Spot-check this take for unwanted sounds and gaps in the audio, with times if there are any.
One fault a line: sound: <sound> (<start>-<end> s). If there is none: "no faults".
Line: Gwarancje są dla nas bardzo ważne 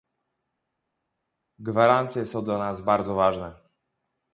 no faults